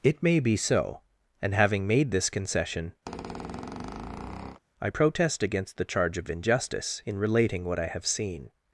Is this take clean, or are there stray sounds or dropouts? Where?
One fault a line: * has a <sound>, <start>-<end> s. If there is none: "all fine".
* has a squeak, 3.1-4.6 s